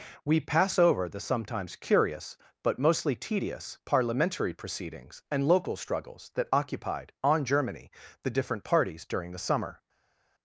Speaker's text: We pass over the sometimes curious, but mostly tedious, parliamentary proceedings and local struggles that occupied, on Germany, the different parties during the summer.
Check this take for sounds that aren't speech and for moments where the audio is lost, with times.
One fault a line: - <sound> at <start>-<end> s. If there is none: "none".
none